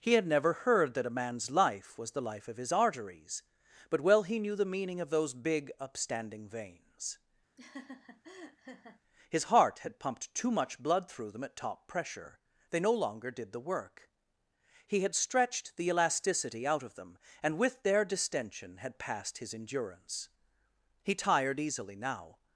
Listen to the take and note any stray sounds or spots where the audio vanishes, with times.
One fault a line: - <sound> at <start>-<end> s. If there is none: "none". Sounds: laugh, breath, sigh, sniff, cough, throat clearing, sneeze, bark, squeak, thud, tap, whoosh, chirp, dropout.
- laugh at 7.6-9.0 s